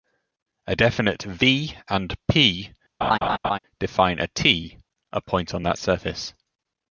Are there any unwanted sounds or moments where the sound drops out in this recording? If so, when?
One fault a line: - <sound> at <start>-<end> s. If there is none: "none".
- laugh at 3.0-3.6 s